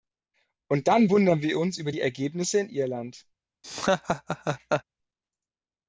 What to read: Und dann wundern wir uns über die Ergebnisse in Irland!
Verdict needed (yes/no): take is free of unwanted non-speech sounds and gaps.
no